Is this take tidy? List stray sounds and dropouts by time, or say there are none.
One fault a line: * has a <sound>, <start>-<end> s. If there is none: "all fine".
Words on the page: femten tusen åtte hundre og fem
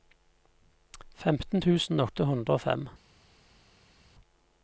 all fine